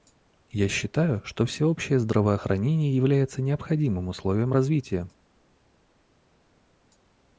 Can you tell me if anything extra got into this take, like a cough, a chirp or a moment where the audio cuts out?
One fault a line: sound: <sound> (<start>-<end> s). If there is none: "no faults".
no faults